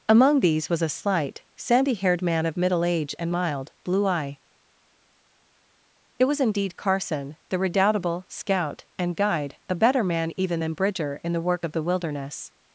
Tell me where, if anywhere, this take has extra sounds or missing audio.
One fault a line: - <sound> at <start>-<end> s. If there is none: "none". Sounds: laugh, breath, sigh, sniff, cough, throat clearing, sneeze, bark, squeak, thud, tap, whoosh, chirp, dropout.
none